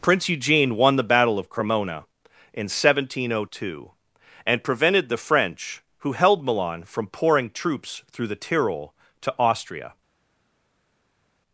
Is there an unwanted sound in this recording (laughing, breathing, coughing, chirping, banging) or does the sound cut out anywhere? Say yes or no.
no